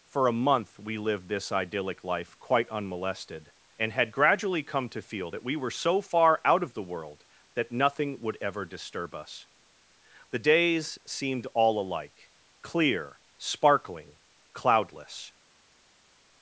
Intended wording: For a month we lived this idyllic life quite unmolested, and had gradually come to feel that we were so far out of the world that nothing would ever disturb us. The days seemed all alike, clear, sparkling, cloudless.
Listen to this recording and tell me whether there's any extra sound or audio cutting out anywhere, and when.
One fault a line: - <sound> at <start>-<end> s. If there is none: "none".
none